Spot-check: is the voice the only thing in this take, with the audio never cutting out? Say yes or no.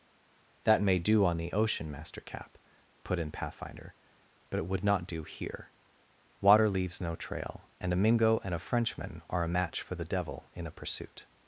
yes